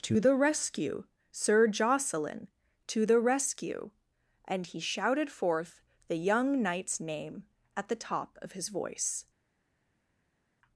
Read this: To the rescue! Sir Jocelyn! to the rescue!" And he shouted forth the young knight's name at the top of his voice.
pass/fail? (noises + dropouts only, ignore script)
pass